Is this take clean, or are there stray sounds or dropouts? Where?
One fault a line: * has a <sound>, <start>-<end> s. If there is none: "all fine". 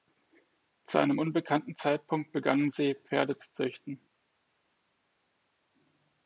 all fine